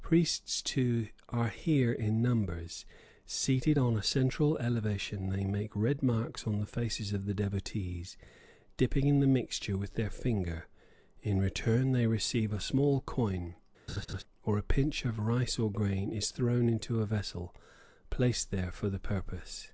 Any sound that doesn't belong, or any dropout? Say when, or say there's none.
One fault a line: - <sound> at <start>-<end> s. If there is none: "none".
- laugh at 13.9-14.2 s